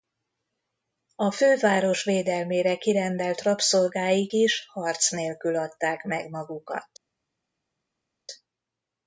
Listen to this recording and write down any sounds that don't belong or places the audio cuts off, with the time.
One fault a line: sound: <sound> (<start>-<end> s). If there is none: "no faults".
no faults